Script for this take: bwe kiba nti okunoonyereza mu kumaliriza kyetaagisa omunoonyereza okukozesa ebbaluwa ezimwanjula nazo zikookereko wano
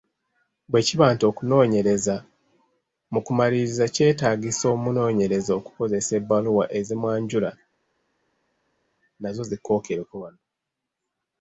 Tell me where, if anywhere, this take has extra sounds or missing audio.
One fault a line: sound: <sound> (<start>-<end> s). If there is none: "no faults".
no faults